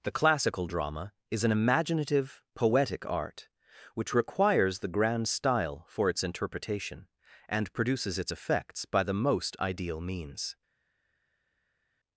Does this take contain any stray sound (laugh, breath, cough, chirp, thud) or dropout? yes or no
no